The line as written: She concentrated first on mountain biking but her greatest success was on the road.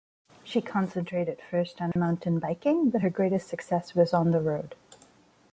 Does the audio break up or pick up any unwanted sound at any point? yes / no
yes